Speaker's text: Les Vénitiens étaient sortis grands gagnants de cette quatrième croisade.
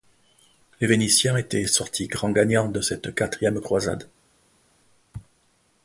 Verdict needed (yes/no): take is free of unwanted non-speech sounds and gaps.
yes